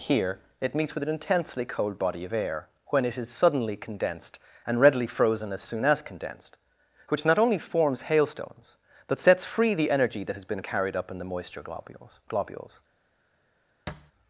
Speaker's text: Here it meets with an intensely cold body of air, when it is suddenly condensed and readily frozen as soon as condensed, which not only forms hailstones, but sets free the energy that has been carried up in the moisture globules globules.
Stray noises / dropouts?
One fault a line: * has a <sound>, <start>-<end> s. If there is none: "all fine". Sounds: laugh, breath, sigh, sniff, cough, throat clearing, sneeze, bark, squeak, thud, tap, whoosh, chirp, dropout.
* has a thud, 13.9-14.1 s